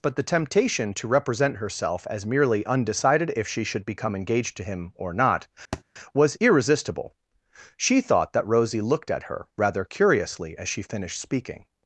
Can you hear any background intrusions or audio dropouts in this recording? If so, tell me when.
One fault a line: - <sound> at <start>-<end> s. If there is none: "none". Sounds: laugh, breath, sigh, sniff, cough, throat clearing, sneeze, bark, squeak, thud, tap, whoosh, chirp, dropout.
- thud at 5.7-5.8 s